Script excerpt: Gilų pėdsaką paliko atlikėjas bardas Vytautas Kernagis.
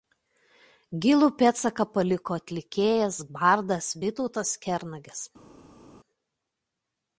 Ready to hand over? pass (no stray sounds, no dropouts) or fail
pass